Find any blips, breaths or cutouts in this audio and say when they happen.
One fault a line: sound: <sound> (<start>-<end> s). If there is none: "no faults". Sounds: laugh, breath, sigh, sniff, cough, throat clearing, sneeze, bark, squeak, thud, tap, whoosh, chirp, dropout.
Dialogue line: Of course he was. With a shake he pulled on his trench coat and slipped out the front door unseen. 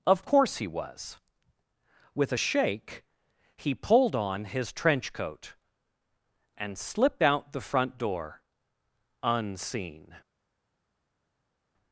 no faults